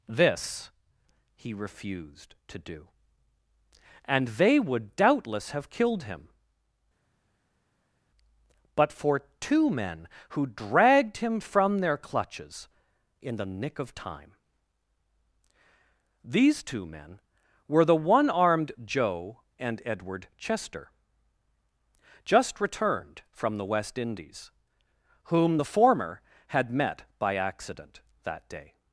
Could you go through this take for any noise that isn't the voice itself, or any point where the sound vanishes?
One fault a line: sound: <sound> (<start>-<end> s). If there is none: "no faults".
no faults